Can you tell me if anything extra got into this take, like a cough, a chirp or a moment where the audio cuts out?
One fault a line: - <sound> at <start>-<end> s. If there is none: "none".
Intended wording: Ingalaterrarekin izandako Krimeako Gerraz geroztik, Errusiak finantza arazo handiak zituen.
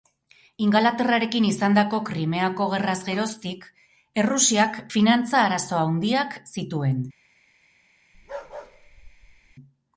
- bark at 8.1-9.6 s